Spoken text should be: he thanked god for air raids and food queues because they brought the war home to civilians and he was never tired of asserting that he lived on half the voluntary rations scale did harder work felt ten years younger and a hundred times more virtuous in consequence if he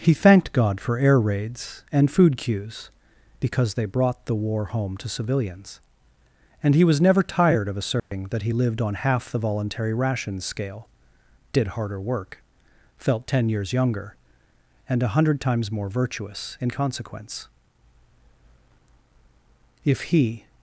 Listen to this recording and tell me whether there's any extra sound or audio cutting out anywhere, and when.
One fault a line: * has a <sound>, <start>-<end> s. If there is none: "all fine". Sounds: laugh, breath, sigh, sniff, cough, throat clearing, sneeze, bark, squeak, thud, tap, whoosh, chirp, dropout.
* has a dropout, 8.0-8.1 s